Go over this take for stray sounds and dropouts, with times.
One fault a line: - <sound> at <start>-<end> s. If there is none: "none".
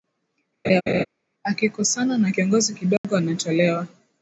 - laugh at 0.6-1.0 s
- dropout at 3.0-3.0 s